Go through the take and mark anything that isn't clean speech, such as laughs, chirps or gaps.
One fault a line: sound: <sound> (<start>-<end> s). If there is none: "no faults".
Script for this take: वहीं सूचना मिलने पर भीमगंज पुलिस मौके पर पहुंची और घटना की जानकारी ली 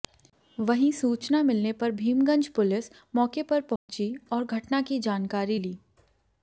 sound: dropout (3.8-3.9 s)